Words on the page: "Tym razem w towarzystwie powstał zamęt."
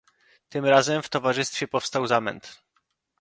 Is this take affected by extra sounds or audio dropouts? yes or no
no